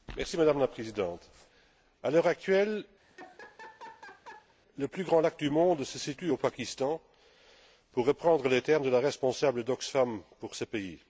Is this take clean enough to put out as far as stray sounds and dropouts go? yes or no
no